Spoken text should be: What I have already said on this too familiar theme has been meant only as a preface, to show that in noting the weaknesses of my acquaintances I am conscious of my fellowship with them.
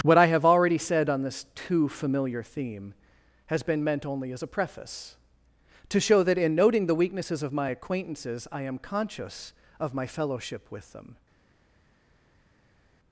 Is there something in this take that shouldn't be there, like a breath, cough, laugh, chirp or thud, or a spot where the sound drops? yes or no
no